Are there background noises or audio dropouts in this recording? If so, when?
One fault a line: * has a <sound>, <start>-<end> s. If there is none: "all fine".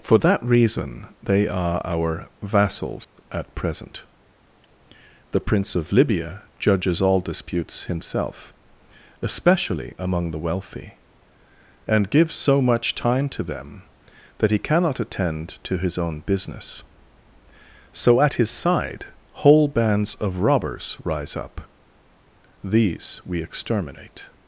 * has a dropout, 3.0-3.2 s